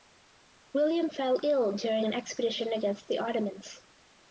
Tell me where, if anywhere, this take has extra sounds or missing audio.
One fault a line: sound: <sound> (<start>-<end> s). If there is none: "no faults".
no faults